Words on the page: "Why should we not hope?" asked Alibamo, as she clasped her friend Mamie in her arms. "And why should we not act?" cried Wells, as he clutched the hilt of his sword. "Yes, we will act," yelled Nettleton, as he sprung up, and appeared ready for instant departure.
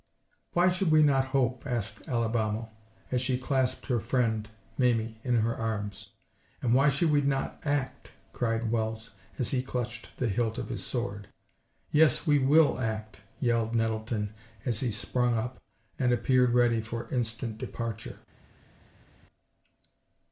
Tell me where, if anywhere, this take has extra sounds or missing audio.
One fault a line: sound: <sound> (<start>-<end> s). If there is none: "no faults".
no faults